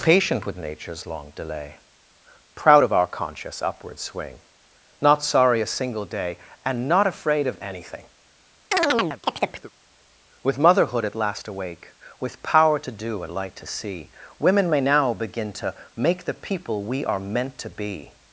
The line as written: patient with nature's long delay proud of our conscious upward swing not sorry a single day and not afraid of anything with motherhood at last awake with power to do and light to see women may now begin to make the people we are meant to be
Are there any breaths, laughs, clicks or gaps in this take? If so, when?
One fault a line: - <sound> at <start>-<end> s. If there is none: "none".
- chirp at 8.7-9.7 s